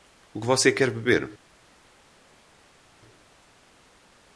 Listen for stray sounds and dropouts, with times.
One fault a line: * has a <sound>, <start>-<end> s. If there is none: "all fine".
all fine